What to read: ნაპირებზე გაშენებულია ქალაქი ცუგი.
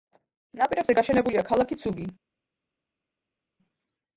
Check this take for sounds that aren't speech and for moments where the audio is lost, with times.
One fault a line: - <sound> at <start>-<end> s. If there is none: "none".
none